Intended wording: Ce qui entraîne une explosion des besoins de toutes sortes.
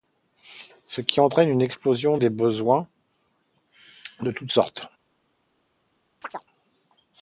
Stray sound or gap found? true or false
true